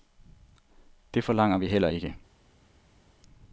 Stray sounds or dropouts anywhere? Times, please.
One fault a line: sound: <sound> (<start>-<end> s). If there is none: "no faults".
no faults